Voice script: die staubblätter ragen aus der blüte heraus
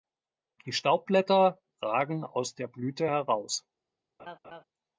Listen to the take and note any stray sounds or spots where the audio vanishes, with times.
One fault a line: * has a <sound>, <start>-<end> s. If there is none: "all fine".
* has a laugh, 4.2-4.6 s